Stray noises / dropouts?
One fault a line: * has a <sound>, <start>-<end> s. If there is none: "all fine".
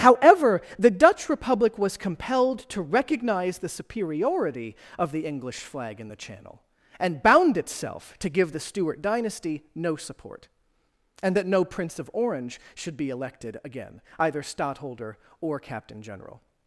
all fine